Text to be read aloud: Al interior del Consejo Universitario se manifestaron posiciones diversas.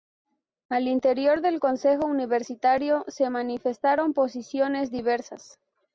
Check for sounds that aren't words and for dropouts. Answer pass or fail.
pass